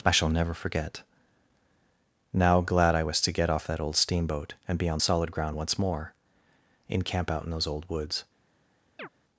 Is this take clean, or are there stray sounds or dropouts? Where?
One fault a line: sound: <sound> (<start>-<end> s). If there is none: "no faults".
sound: chirp (9.0-9.1 s)